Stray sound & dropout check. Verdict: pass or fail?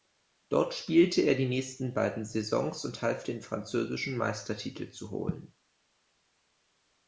pass